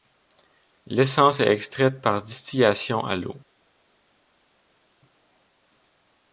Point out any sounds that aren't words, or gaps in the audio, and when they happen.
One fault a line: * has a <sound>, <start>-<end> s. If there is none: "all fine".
all fine